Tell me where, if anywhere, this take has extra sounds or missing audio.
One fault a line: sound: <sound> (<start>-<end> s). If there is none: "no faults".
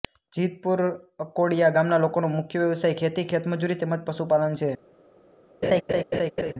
sound: laugh (5.6-6.5 s)